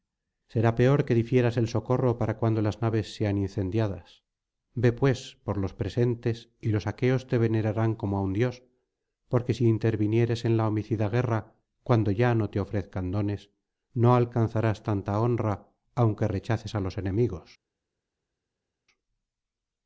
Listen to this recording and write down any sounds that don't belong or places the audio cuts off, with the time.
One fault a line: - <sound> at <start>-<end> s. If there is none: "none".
none